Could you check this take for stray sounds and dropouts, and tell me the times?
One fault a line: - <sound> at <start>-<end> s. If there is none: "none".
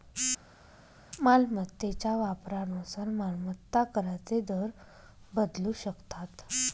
none